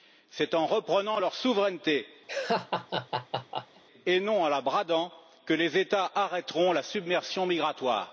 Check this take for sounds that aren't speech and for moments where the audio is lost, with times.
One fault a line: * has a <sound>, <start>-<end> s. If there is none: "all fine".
* has a laugh, 2.3-3.8 s